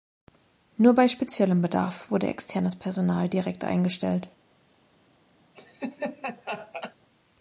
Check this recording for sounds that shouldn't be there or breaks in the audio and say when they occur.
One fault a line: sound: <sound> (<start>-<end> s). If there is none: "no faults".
sound: laugh (5.5-6.9 s)